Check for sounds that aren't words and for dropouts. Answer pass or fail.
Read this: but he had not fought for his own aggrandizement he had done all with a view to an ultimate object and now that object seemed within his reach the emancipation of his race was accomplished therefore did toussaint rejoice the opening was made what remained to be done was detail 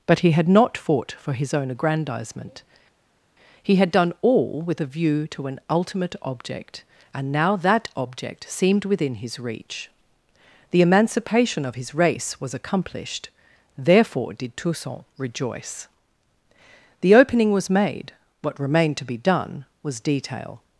pass